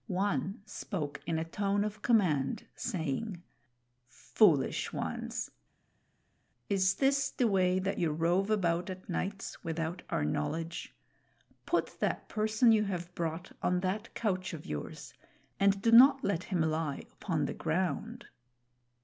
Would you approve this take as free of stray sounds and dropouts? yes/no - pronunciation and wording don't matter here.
yes